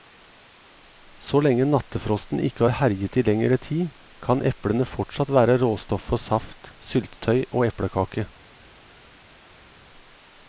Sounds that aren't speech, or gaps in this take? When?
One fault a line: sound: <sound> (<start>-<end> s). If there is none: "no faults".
no faults